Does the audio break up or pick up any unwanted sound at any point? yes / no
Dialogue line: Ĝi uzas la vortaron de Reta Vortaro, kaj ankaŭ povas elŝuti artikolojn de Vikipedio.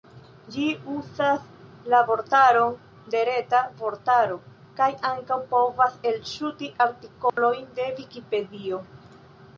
yes